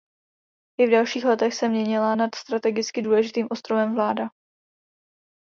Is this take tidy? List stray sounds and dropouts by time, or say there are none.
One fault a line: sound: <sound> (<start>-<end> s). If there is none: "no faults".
no faults